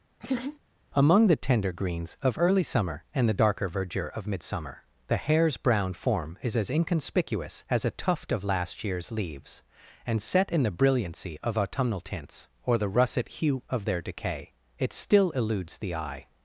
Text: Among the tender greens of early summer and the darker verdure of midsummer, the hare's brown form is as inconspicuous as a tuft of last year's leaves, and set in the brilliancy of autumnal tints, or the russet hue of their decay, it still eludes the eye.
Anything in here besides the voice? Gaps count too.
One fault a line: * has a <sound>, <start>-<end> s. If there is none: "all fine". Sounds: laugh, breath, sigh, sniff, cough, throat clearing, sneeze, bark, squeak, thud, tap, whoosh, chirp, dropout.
* has a laugh, 0.2-0.6 s